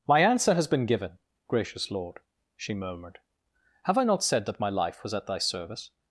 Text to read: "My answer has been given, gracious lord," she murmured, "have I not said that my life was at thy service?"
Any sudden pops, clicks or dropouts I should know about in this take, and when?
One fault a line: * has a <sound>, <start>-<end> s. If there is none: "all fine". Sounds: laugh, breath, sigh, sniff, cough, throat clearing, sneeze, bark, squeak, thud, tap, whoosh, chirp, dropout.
all fine